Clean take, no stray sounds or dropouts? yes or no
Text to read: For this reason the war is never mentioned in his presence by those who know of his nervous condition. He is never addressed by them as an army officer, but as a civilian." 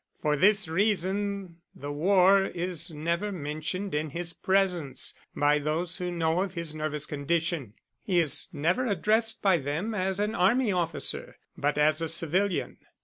yes